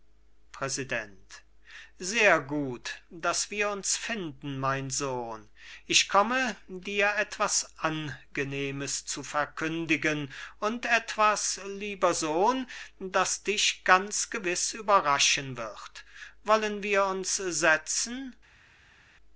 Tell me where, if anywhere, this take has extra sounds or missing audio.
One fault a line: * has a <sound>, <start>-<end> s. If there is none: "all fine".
all fine